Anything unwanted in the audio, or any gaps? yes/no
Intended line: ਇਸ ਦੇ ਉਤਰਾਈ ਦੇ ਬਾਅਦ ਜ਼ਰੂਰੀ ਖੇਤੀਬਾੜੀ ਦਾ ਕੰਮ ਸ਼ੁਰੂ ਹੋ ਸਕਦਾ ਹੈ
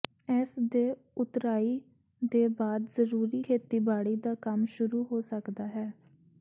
no